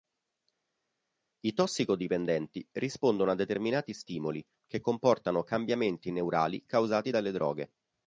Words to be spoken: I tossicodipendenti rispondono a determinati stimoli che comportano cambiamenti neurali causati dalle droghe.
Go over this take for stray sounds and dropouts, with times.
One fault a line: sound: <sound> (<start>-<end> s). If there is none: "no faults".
no faults